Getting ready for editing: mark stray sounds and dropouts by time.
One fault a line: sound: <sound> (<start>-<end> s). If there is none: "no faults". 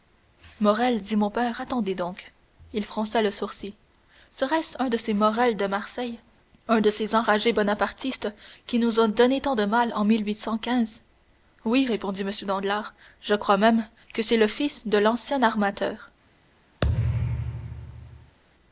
sound: thud (16.8-18.4 s)